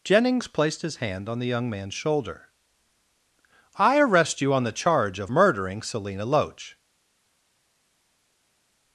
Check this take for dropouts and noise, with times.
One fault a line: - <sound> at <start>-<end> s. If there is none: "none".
none